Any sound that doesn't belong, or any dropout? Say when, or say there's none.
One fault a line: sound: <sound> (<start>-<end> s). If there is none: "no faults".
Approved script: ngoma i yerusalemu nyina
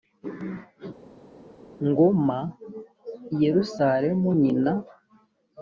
no faults